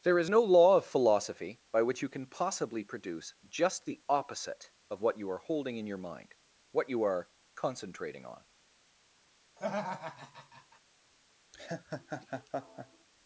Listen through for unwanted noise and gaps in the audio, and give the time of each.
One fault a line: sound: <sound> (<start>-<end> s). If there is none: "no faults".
sound: laugh (9.6-10.8 s)
sound: laugh (11.5-13.1 s)